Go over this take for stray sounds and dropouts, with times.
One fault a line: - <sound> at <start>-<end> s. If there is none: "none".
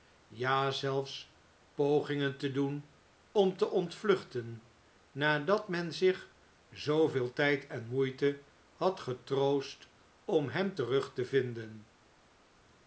none